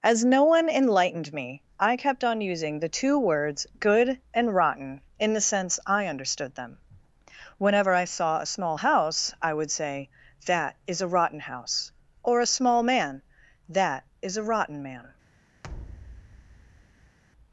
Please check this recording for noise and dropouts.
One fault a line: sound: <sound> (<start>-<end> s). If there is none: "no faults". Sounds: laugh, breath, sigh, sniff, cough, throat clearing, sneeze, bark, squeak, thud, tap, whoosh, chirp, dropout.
sound: thud (15.6-17.2 s)